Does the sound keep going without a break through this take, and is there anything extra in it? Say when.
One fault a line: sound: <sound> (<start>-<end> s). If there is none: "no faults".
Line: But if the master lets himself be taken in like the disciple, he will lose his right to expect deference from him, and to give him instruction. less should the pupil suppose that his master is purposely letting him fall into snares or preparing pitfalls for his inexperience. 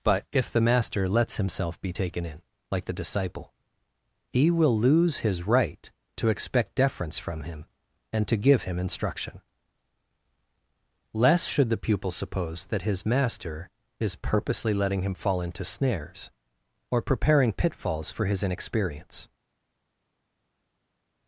no faults